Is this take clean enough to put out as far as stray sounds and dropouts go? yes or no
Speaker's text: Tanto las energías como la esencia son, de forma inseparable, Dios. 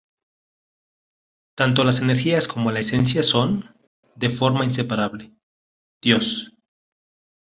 yes